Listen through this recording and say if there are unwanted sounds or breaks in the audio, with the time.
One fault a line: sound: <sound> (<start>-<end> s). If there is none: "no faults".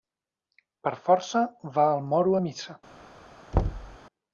sound: thud (3.5-4.0 s)